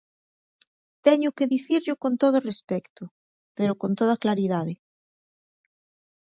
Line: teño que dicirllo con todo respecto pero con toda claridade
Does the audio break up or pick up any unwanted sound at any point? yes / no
no